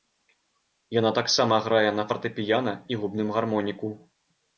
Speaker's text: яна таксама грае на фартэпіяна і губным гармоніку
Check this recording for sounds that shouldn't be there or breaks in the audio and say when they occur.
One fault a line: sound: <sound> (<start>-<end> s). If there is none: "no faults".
no faults